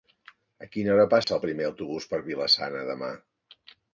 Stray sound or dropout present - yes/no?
yes